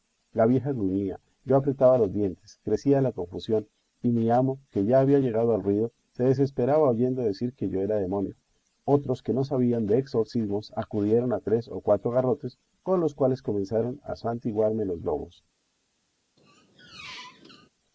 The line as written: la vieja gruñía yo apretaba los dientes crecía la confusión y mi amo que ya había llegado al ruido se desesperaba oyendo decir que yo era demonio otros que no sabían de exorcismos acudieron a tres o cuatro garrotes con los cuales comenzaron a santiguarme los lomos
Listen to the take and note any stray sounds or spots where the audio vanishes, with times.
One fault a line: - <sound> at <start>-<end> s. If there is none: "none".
- squeak at 16.4-17.7 s